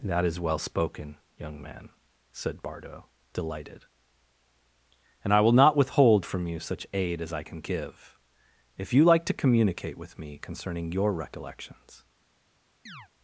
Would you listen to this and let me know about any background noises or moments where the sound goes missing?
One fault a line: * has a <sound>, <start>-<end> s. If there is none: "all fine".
* has a chirp, 12.9-13.1 s